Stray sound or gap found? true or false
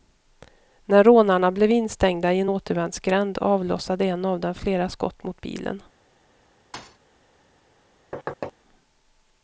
true